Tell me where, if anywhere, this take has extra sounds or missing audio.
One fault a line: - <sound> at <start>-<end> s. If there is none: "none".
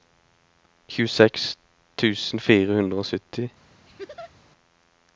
- laugh at 3.9-4.3 s